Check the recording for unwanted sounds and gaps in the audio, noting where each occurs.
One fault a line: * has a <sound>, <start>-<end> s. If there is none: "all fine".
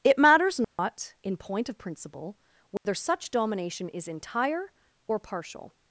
* has a dropout, 0.6-0.8 s
* has a dropout, 2.8-2.9 s